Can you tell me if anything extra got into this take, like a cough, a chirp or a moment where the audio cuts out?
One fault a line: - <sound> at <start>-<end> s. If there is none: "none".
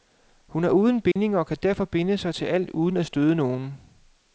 - dropout at 1.1-1.2 s